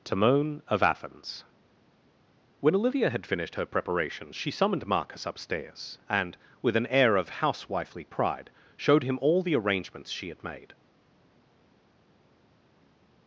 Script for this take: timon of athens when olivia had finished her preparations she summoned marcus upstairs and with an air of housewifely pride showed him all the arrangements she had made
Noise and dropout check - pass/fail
pass